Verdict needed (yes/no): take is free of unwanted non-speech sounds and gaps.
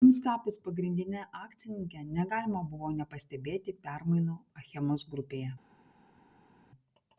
yes